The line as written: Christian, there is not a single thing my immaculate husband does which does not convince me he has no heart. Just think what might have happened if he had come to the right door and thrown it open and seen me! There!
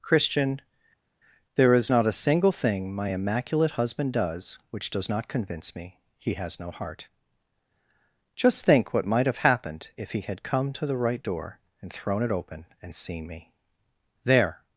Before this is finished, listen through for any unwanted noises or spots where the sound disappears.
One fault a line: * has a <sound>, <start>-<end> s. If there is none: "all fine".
all fine